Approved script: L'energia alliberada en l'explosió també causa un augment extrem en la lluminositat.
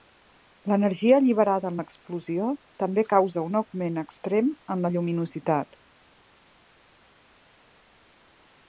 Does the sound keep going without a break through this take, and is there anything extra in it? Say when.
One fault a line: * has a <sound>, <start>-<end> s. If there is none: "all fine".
all fine